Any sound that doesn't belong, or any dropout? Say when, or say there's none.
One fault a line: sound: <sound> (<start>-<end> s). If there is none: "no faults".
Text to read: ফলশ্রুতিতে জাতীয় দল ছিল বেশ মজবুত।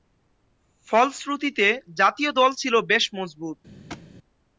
sound: thud (3.9-4.1 s)